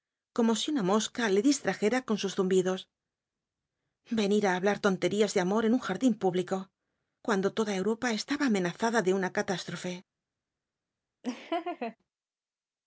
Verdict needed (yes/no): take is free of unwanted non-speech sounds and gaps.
no